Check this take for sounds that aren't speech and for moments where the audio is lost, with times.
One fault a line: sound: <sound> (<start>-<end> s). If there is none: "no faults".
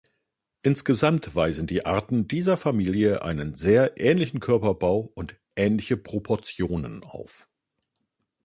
no faults